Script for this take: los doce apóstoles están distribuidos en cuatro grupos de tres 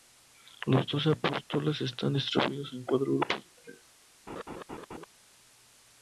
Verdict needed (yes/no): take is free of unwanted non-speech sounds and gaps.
no